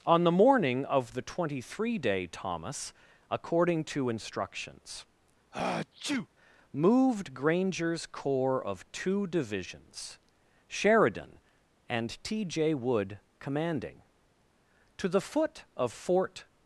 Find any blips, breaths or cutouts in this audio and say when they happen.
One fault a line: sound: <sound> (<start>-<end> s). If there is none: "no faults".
sound: sneeze (5.5-6.3 s)